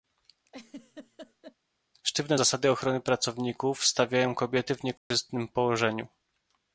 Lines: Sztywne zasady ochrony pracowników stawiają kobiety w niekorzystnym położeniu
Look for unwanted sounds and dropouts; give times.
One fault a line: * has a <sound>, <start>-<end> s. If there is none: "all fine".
* has a laugh, 0.5-1.6 s
* has a dropout, 5.0-5.1 s